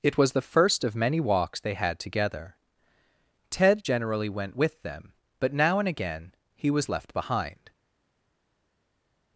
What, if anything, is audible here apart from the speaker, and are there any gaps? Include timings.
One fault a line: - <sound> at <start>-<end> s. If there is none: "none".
none